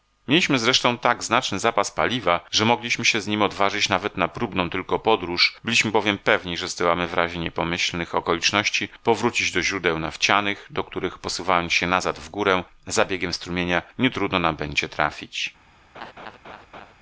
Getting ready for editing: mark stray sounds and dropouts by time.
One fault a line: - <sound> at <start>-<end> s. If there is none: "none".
- laugh at 15.9-16.9 s